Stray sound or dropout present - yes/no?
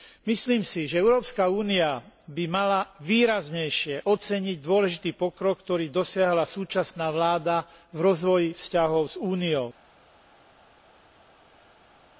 no